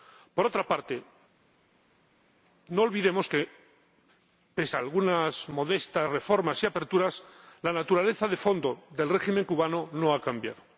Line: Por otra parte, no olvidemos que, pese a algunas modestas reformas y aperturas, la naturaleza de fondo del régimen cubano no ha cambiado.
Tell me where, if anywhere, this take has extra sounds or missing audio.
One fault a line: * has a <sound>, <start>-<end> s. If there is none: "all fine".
all fine